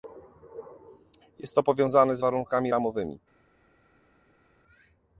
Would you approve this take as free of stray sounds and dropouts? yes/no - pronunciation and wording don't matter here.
yes